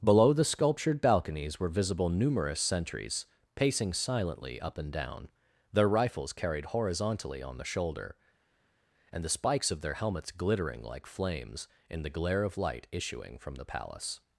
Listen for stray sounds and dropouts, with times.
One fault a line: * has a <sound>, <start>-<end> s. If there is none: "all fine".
all fine